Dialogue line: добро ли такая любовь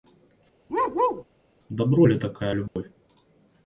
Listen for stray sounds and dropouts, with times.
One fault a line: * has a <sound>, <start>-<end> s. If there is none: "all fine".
* has a bark, 0.7-1.2 s
* has a dropout, 2.7-2.8 s